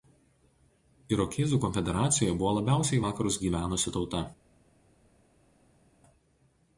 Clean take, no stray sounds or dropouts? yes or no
yes